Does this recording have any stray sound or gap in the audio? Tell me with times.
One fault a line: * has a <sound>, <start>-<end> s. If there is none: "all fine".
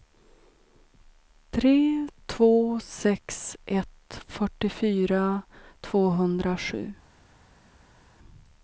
all fine